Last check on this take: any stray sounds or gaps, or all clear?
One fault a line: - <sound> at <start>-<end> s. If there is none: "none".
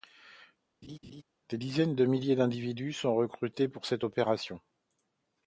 - laugh at 0.8-1.2 s